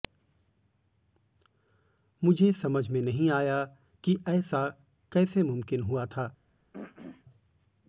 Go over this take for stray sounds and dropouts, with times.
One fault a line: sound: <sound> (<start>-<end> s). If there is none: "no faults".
sound: throat clearing (6.7-7.3 s)